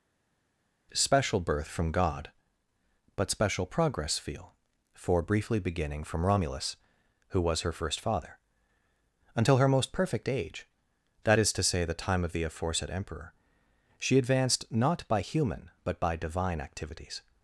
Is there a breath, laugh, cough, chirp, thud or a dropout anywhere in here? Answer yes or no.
no